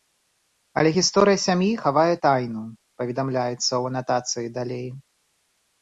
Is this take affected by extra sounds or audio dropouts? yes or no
no